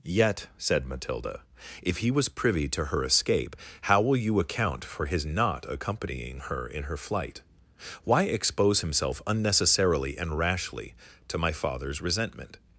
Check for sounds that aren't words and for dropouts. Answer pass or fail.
pass